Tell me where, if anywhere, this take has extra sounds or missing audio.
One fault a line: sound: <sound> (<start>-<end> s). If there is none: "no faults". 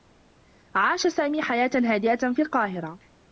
no faults